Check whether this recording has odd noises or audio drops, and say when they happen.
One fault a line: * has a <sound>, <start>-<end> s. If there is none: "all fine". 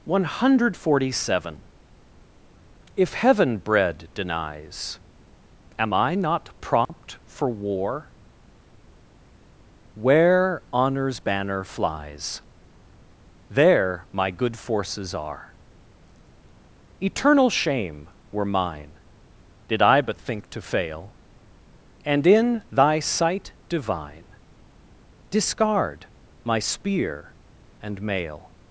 * has a dropout, 6.9-6.9 s